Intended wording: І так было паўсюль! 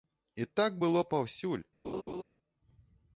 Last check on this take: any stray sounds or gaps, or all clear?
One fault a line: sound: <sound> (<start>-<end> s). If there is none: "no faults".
sound: laugh (1.8-2.2 s)